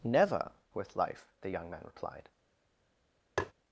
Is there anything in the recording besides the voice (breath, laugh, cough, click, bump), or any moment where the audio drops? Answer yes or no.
yes